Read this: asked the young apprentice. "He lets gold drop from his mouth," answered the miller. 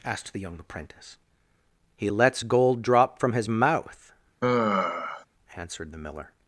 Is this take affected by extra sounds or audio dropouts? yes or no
yes